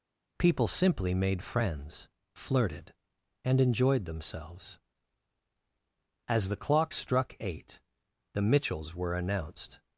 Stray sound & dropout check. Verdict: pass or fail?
pass